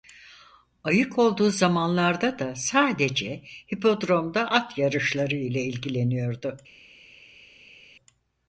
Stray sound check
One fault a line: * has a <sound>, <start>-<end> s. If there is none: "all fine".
all fine